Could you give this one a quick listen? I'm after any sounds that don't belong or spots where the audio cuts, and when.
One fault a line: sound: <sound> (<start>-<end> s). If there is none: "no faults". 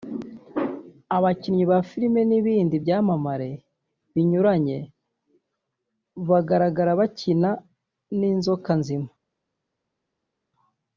no faults